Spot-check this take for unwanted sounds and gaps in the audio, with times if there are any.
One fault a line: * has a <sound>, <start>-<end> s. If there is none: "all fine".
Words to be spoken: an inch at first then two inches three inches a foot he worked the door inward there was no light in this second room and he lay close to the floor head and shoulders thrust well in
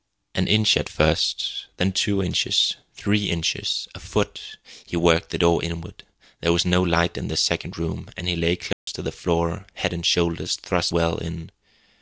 * has a dropout, 8.7-8.9 s